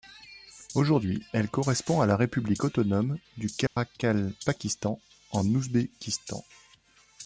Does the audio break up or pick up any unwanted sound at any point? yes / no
yes